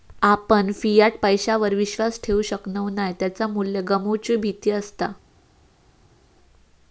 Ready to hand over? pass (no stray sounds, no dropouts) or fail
pass